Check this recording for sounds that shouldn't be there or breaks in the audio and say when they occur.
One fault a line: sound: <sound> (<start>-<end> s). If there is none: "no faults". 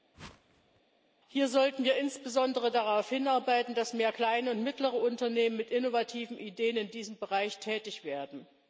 sound: whoosh (0.1-0.8 s)